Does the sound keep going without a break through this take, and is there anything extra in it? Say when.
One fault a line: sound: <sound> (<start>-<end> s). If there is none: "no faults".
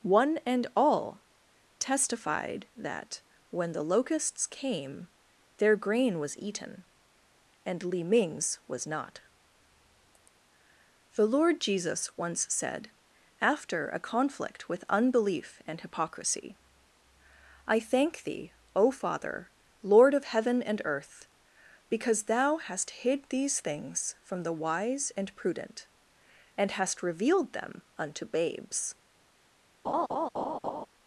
sound: laugh (29.8-30.9 s)